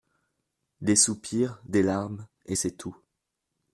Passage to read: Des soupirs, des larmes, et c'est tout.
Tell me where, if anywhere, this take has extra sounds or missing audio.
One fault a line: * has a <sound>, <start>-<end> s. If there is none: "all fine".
all fine